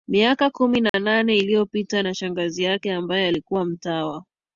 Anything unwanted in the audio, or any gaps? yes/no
yes